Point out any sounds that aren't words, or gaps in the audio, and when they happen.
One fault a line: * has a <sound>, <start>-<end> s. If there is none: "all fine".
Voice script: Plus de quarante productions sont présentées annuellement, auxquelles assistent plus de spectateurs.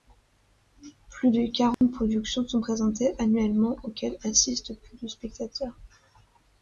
* has a dropout, 1.7-1.8 s